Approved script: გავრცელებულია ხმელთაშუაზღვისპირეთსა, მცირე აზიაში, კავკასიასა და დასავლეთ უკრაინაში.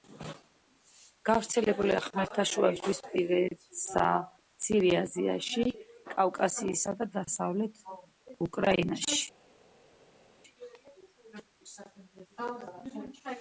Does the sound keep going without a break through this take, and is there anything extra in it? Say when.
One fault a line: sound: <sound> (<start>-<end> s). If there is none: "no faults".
no faults